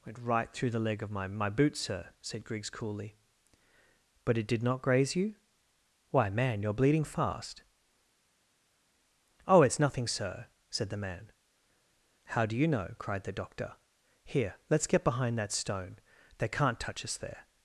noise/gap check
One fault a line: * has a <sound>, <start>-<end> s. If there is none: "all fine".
all fine